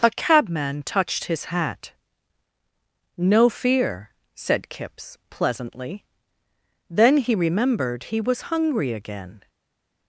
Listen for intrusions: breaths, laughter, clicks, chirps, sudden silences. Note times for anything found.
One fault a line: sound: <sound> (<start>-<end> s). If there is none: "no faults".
no faults